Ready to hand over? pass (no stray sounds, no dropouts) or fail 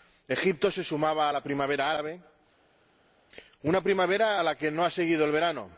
pass